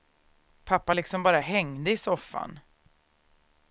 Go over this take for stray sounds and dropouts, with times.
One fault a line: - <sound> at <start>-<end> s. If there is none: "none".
none